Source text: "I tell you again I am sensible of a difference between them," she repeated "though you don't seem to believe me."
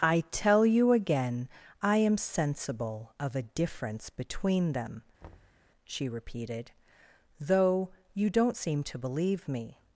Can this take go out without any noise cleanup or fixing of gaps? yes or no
no